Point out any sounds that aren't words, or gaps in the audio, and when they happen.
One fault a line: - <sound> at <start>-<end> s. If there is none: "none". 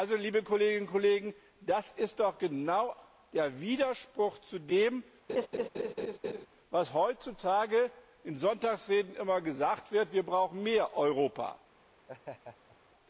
- laugh at 5.3-6.5 s
- laugh at 12.1-12.8 s